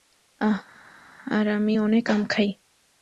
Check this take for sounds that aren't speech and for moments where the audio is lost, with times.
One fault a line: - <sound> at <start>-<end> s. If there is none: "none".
none